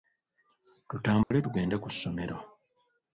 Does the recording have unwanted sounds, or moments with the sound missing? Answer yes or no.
yes